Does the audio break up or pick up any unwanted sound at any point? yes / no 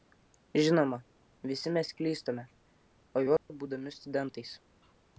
yes